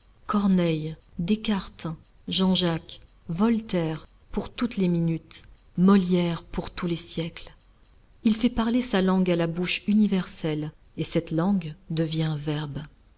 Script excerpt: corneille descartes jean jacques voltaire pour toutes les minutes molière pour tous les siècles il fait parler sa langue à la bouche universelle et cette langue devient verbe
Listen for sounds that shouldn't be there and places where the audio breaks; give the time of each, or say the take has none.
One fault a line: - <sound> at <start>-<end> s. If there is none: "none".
none